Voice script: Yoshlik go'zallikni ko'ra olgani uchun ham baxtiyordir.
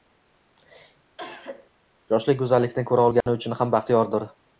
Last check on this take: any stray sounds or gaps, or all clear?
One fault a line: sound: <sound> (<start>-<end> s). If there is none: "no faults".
sound: cough (1.2-1.7 s)
sound: dropout (3.2-3.3 s)